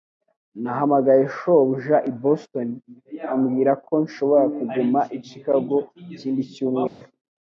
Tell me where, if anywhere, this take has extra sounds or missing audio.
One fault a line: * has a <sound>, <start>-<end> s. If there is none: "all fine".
* has a dropout, 6.9-7.0 s